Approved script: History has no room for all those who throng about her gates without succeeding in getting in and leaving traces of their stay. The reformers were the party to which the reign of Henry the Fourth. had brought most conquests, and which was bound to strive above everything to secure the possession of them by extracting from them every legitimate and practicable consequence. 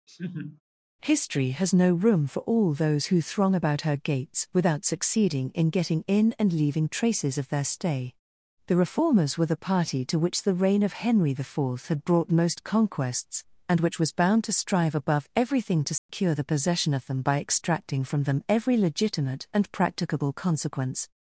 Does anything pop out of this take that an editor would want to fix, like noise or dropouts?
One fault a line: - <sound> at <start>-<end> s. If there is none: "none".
- laugh at 0.1-0.6 s
- dropout at 16.0-16.1 s